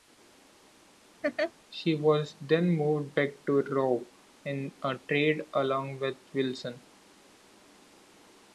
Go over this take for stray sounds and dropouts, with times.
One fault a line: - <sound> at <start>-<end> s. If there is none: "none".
- laugh at 1.2-1.5 s